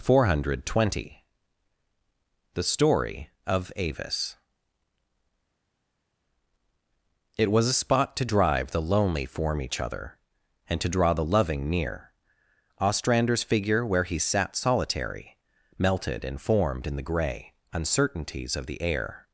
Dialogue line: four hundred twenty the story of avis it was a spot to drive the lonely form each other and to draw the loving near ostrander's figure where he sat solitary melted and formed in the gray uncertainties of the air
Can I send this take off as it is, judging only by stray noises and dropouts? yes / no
yes